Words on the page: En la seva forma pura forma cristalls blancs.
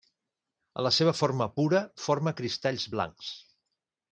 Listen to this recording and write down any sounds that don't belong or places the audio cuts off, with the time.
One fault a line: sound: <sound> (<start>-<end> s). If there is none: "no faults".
no faults